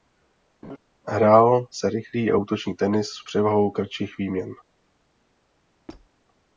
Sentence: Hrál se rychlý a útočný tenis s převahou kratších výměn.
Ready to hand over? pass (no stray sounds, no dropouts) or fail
fail